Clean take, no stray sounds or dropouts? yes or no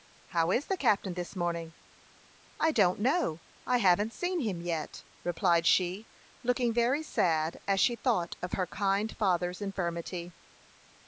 yes